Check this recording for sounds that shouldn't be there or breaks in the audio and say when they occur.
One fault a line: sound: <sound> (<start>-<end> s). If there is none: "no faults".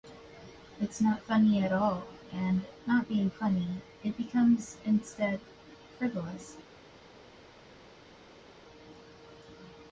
no faults